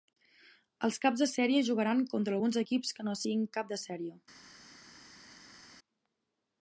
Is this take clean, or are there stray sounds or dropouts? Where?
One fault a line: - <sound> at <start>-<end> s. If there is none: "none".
none